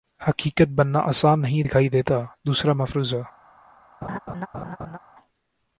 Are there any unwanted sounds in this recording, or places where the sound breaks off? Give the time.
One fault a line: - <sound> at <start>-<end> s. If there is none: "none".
- laugh at 4.0-5.0 s